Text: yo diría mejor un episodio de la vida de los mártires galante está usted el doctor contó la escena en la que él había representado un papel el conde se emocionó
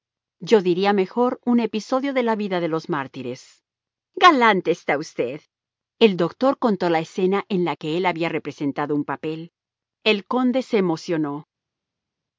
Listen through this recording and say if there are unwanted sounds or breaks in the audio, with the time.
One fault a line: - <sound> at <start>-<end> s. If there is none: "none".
none